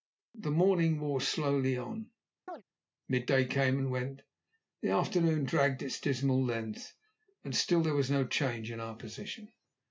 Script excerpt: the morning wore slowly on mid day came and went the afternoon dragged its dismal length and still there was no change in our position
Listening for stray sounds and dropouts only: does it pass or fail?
fail